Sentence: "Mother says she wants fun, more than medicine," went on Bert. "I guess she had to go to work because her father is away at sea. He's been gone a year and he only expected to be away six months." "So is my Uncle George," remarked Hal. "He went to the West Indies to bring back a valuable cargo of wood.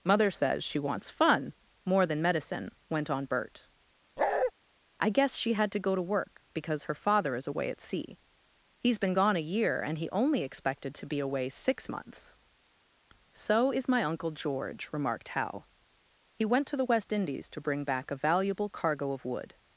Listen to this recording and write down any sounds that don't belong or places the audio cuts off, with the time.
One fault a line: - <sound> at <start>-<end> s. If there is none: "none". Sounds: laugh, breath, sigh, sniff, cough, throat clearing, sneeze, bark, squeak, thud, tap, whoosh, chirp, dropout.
- bark at 4.2-4.5 s